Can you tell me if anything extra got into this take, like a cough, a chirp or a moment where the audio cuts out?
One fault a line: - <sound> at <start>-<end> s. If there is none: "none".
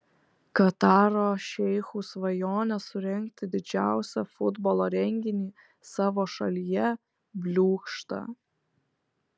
none